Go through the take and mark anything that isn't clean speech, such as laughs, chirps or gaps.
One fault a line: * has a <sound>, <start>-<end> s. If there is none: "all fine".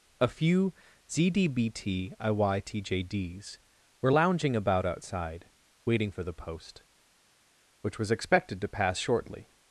all fine